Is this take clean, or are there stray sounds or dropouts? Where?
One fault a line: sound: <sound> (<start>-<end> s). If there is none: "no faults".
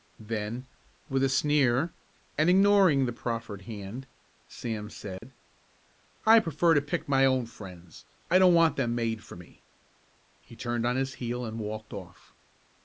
sound: dropout (5.2-5.2 s)